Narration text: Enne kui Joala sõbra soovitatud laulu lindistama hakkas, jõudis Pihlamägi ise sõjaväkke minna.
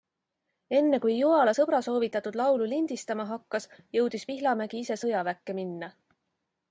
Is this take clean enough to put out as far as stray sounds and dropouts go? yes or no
yes